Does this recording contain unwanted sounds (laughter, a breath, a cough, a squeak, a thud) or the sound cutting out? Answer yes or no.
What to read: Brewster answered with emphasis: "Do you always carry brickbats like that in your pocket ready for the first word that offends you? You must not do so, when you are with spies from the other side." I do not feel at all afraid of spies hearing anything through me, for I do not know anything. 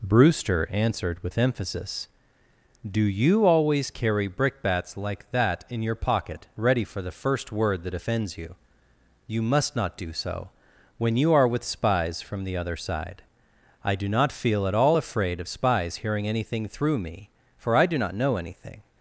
no